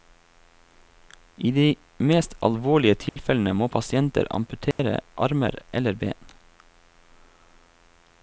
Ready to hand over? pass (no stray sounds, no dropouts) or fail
fail